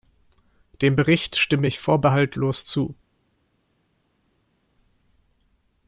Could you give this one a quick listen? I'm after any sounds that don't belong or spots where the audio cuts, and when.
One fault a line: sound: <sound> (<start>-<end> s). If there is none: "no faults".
no faults